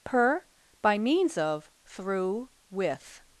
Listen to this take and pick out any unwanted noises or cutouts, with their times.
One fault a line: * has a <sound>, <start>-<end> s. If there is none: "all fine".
all fine